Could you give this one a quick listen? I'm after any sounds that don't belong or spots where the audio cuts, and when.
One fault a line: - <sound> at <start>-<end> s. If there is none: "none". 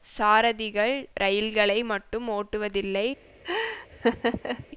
- laugh at 3.4-4.7 s